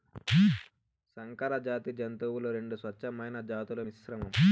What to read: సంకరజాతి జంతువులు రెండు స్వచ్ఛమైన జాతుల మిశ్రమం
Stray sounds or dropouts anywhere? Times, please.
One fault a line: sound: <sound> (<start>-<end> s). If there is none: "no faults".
no faults